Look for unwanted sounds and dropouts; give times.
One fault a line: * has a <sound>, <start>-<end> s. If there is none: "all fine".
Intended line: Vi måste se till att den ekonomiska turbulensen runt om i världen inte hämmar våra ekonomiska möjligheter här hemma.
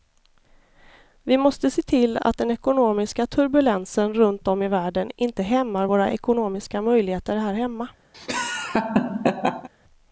* has a laugh, 8.1-9.7 s